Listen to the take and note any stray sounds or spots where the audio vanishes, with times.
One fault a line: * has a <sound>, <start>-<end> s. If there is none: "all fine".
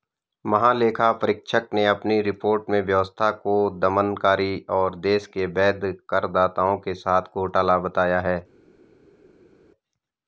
all fine